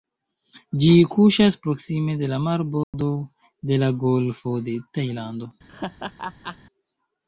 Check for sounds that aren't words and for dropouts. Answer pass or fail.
fail